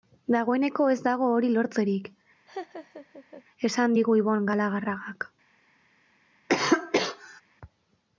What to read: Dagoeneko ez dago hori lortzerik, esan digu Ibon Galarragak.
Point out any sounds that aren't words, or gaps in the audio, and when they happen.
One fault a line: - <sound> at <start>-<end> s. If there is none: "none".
- laugh at 2.5-3.4 s
- cough at 6.5-7.4 s